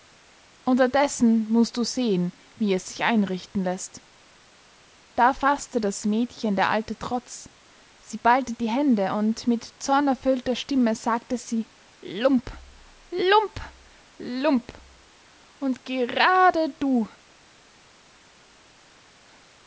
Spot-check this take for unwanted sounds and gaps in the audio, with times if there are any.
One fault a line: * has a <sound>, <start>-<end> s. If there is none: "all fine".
all fine